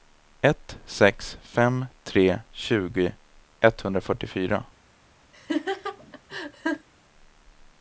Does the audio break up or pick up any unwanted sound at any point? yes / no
yes